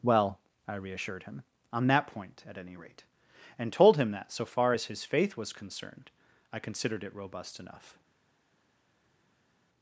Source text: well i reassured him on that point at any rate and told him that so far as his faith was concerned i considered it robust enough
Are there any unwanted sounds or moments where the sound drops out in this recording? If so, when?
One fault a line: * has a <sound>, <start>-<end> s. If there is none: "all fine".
all fine